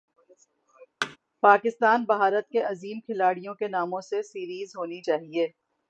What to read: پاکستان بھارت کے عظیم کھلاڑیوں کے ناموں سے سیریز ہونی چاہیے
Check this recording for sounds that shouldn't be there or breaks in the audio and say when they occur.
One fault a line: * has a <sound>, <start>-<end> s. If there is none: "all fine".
* has a thud, 1.0-1.2 s